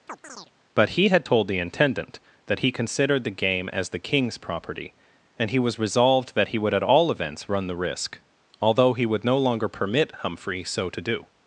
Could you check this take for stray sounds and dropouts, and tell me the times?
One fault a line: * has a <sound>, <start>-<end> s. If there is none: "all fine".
* has a chirp, 0.1-0.5 s